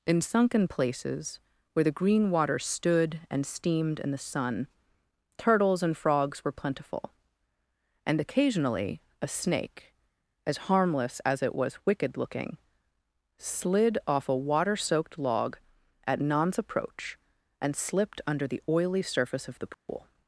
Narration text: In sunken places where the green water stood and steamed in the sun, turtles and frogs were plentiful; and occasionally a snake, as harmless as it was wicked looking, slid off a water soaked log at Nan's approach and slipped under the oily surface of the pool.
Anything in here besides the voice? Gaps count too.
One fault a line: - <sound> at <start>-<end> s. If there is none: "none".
- dropout at 19.7-19.9 s